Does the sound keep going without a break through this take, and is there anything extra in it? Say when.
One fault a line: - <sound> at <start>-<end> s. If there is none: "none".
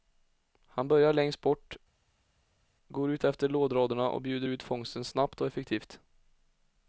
none